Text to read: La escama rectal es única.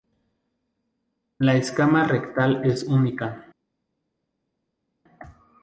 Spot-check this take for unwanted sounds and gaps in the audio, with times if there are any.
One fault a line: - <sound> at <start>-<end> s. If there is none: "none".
none